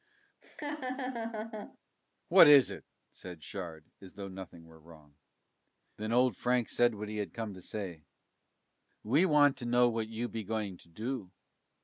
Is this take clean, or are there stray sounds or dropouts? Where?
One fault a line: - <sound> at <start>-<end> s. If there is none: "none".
- laugh at 0.4-1.8 s